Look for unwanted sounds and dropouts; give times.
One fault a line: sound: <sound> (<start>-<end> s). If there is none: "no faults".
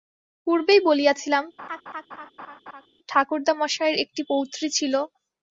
sound: laugh (1.6-2.9 s)